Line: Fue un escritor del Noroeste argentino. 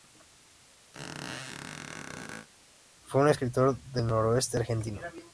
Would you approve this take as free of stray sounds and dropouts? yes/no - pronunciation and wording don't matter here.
no